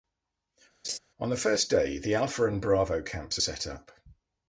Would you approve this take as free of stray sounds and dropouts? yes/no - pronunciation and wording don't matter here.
no